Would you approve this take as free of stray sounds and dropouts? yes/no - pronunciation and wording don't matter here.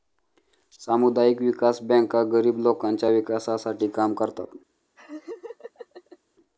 no